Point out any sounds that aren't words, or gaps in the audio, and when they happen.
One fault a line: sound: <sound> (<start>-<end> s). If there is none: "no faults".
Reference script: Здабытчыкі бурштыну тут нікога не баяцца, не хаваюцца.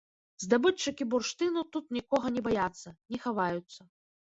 no faults